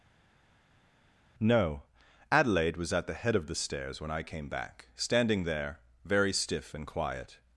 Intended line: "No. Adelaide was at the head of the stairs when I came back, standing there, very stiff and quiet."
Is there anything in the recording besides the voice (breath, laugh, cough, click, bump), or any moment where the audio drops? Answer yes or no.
no